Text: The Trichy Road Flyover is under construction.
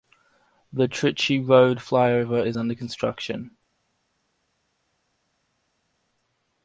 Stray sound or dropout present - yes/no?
no